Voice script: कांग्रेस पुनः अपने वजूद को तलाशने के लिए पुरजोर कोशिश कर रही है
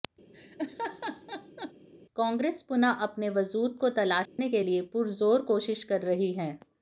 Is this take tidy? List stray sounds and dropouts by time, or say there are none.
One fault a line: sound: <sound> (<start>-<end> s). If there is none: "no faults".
sound: laugh (0.3-1.7 s)
sound: dropout (4.3-4.4 s)